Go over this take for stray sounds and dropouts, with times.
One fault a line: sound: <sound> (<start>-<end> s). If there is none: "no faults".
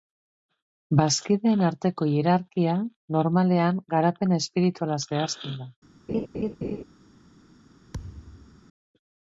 sound: laugh (6.1-6.8 s)
sound: thud (7.9-8.6 s)